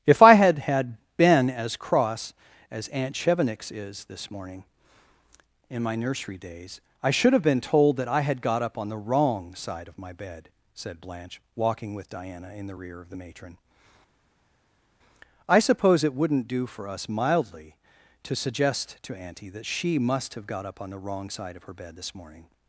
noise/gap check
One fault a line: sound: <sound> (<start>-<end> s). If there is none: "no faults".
no faults